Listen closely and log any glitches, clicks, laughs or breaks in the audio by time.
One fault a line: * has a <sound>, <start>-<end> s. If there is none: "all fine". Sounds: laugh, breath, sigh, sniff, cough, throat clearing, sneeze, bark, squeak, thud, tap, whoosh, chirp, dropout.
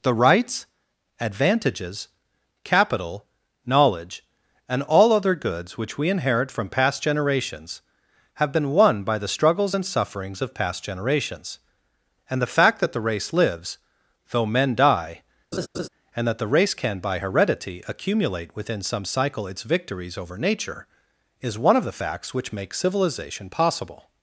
* has a laugh, 15.5-15.9 s